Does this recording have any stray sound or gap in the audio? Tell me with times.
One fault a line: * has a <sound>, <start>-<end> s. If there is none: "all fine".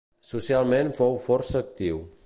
all fine